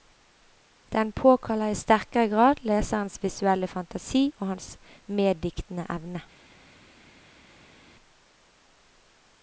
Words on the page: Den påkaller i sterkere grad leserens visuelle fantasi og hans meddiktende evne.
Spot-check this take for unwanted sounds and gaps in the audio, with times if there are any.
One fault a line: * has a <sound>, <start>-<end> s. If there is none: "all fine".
all fine